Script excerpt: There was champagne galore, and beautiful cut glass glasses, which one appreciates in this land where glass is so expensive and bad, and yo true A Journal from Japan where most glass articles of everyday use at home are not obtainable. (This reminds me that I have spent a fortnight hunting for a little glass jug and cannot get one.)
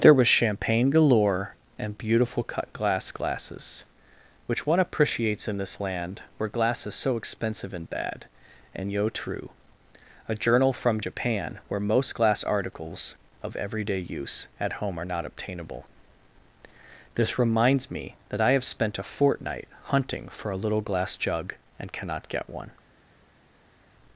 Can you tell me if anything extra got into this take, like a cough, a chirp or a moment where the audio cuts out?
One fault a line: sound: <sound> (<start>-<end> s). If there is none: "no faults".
no faults